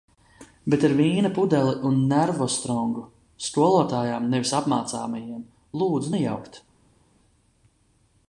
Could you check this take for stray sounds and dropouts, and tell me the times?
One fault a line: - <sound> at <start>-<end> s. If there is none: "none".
none